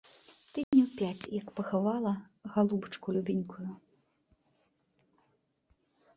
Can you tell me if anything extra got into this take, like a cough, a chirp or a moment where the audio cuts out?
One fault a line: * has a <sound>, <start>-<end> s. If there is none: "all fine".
* has a dropout, 0.6-0.7 s